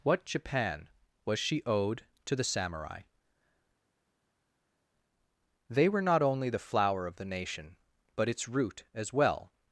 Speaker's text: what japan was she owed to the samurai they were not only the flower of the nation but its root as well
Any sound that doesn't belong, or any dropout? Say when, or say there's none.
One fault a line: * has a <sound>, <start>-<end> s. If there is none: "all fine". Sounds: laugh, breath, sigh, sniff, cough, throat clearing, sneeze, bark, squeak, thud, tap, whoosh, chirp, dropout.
all fine